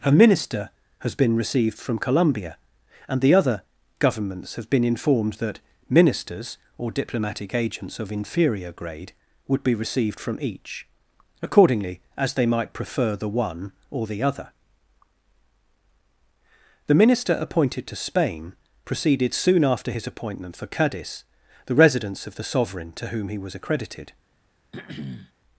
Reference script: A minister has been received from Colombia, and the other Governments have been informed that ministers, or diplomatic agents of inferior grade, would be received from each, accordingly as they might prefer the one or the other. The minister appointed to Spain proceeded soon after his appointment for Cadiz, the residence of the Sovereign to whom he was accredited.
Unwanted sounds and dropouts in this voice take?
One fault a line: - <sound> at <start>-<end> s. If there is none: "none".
- throat clearing at 24.7-25.3 s